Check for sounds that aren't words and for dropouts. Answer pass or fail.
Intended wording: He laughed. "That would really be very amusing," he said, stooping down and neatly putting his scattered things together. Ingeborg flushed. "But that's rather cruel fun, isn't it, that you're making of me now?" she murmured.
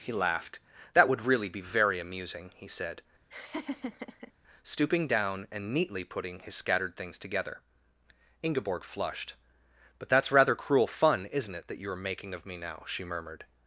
fail